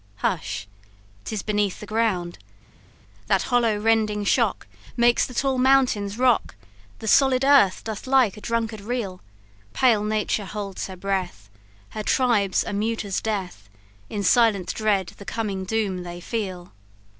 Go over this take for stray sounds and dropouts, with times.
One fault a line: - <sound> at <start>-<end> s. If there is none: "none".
none